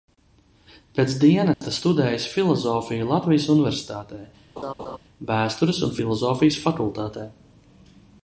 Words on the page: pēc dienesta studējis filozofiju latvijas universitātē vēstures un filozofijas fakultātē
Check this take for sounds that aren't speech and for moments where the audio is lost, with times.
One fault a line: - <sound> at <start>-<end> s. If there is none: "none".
- dropout at 1.5-1.6 s
- laugh at 4.6-5.0 s